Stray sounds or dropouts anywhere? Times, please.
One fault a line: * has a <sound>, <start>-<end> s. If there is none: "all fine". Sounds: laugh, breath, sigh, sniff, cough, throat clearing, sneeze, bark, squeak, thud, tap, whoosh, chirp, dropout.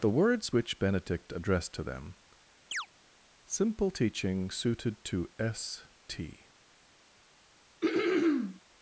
* has a chirp, 2.7-2.9 s
* has a throat clearing, 7.8-8.6 s